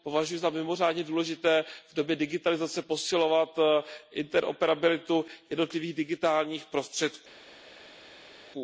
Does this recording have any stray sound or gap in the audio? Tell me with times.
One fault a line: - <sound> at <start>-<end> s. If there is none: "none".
none